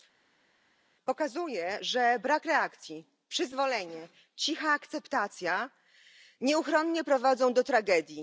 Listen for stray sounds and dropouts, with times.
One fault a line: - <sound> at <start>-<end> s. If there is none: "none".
none